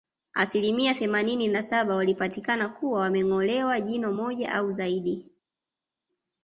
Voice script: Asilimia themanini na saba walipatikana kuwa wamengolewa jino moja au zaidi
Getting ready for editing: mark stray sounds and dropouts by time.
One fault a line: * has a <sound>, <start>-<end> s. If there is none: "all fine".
all fine